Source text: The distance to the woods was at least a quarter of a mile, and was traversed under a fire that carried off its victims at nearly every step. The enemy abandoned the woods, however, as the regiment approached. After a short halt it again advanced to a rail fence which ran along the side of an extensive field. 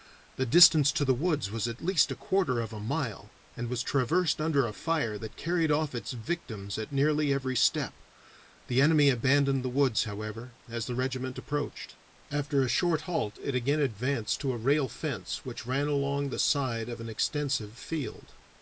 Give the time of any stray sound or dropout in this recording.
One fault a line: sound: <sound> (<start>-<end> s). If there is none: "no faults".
no faults